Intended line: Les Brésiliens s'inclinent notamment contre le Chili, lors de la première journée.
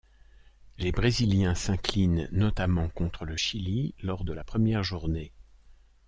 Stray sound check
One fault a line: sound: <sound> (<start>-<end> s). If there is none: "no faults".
no faults